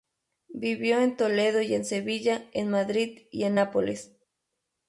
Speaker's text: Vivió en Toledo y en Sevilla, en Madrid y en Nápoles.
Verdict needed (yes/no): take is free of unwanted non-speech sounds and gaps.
yes